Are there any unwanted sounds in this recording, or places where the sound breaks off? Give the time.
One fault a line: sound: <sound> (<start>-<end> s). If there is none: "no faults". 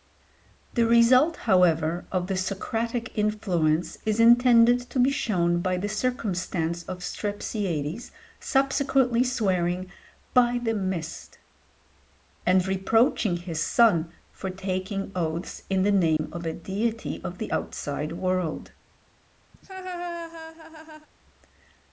sound: dropout (16.2-16.2 s)
sound: laugh (19.5-21.1 s)